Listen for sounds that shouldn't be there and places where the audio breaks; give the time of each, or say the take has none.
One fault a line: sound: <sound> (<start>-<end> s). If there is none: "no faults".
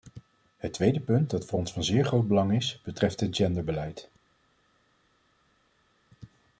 no faults